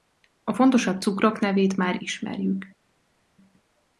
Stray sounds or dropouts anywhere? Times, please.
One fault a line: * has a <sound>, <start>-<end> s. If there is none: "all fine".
all fine